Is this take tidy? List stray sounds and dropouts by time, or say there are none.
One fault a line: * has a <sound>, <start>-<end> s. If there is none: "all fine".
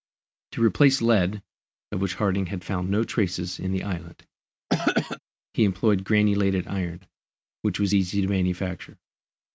* has a throat clearing, 4.7-5.2 s